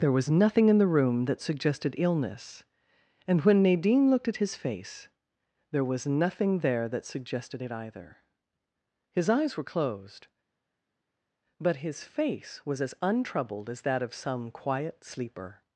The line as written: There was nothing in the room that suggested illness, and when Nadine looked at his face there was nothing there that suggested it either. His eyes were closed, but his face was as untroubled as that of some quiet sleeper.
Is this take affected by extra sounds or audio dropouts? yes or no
no